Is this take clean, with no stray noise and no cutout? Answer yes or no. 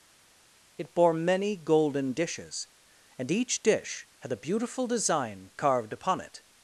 yes